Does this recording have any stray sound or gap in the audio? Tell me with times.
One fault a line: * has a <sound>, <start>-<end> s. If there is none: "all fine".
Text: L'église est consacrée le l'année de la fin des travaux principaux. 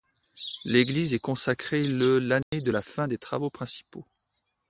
* has a dropout, 2.4-2.5 s